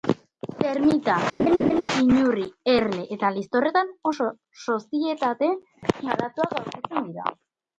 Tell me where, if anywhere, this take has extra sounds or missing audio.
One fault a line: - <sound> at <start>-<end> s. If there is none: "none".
- laugh at 1.4-1.8 s